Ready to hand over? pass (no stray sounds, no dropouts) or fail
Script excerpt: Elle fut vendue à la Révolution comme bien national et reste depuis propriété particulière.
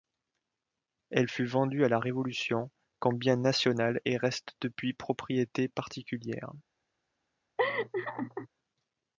fail